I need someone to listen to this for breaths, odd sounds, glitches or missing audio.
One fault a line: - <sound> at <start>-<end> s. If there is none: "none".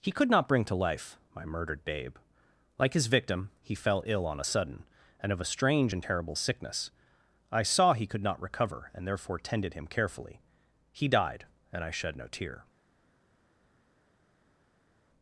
none